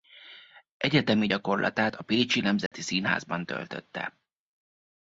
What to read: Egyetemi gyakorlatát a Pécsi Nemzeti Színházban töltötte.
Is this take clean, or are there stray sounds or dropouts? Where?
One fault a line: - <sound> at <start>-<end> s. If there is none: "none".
- dropout at 2.7-2.7 s